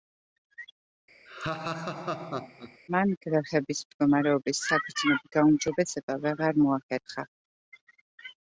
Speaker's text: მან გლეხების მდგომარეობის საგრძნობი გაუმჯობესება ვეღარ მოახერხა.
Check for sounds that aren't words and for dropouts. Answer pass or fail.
fail